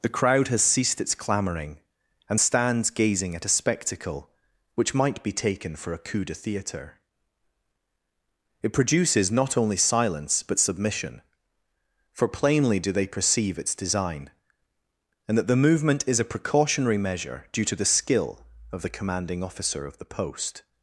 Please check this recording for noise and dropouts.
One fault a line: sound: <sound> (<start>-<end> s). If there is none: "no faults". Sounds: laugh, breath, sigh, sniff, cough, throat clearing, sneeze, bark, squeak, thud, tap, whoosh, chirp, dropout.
no faults